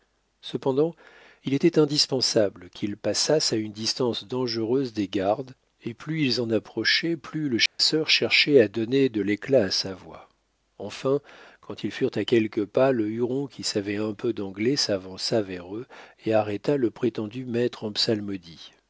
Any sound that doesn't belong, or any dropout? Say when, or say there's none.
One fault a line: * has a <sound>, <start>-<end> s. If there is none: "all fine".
* has a dropout, 7.7-7.8 s